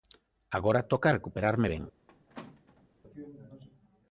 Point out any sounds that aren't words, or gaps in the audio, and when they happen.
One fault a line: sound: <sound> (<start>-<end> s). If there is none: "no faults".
sound: squeak (2.1-2.9 s)